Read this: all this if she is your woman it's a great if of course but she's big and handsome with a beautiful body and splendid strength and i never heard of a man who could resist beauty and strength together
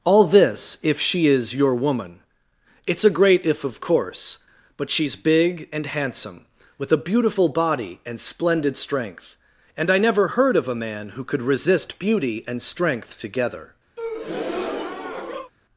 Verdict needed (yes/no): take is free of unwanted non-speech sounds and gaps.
no